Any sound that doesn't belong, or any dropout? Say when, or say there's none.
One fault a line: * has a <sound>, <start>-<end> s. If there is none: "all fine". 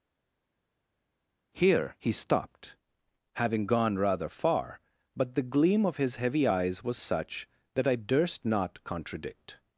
all fine